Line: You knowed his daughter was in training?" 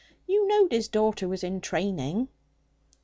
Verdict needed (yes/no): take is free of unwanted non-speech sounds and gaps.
yes